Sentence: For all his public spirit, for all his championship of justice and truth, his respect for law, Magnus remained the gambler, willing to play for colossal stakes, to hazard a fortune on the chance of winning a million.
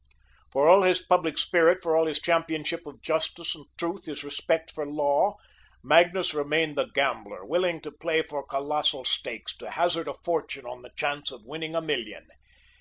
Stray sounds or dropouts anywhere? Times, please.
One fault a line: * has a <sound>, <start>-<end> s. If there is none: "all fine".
all fine